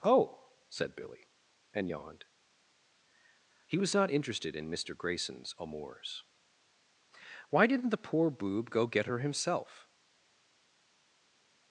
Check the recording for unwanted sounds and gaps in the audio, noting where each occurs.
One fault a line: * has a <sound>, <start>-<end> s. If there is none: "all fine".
all fine